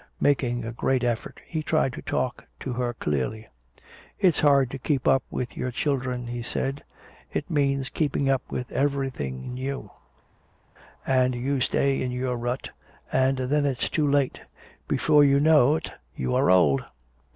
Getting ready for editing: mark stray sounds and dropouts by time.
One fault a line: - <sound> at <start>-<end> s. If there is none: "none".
none